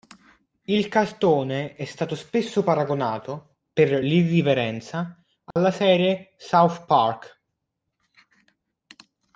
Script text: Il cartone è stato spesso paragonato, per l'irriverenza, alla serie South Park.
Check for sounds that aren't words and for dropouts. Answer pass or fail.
fail